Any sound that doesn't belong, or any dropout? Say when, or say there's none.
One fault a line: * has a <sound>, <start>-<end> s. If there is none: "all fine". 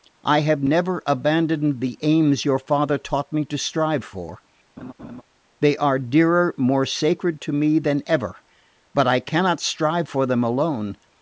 * has a laugh, 4.8-5.2 s